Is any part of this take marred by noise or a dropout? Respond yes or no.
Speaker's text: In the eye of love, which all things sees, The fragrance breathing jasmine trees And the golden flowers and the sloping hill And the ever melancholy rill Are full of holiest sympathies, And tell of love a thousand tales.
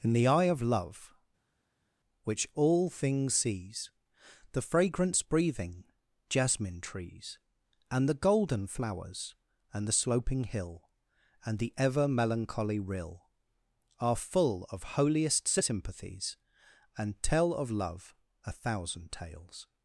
no